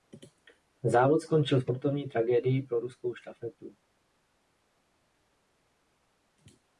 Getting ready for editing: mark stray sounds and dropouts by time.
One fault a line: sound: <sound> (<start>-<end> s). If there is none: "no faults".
no faults